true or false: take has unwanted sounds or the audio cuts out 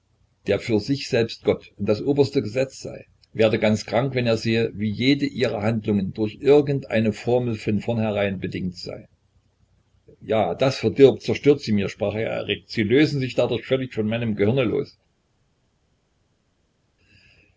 false